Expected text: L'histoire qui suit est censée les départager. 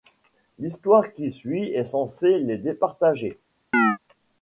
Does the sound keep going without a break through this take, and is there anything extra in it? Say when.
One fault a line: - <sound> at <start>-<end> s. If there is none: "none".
- chirp at 3.7-4.0 s